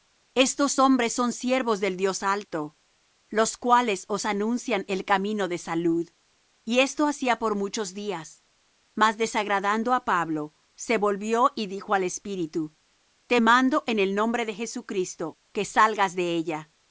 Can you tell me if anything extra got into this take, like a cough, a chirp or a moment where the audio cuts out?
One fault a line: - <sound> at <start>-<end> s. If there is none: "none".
none